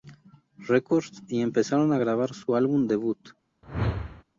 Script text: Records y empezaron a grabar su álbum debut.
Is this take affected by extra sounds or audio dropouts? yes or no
yes